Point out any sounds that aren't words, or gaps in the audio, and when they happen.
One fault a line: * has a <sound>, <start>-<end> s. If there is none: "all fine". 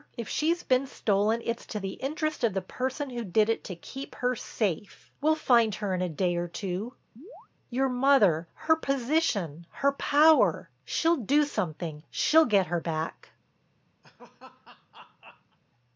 * has a chirp, 7.2-7.5 s
* has a laugh, 14.0-15.6 s